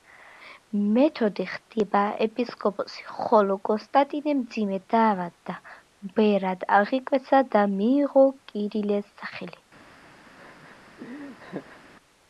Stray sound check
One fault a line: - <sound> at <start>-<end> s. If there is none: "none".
- laugh at 10.4-11.8 s